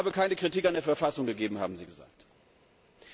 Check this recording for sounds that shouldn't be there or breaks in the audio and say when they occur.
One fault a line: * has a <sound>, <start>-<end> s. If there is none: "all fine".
all fine